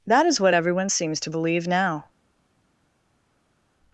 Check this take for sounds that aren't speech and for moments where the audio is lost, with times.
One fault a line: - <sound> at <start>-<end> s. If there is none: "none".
none